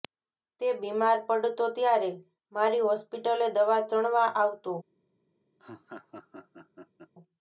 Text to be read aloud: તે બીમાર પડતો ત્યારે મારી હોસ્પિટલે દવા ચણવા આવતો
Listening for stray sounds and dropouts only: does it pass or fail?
fail